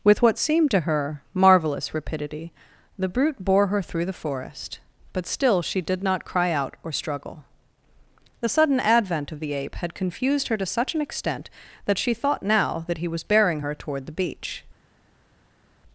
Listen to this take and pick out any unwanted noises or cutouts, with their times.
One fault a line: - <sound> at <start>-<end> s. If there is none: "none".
none